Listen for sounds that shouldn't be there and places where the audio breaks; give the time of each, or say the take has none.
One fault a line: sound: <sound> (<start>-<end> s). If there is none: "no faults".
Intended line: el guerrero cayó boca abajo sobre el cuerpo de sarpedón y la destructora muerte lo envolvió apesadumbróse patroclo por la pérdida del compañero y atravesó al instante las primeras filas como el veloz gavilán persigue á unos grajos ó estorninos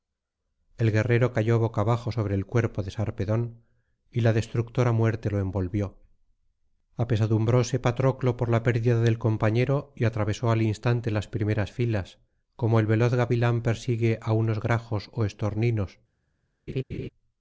sound: laugh (16.7-17.1 s)